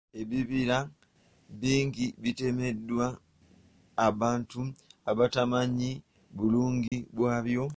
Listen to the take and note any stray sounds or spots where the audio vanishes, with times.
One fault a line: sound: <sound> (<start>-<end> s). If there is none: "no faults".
sound: dropout (6.9-6.9 s)